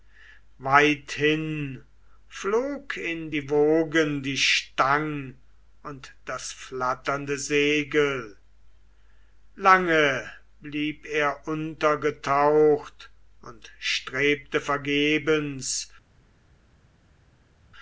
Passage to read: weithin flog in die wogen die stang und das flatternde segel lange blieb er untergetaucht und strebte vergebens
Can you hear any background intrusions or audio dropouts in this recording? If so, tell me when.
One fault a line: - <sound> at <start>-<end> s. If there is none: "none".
none